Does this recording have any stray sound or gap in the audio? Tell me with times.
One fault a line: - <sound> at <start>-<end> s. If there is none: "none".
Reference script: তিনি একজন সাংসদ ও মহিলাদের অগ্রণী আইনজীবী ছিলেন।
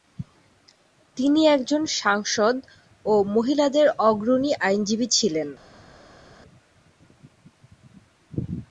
none